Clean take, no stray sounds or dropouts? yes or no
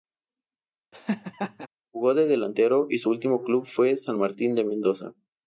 no